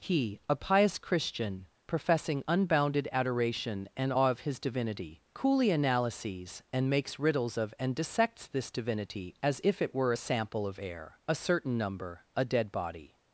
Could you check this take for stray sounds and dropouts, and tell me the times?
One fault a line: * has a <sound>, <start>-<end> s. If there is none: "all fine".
all fine